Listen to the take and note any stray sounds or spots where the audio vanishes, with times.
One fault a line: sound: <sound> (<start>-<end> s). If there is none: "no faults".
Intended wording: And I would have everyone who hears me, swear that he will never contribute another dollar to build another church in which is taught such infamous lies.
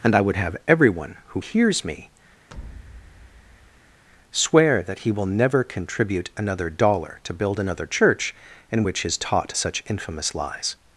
sound: thud (2.5-4.0 s)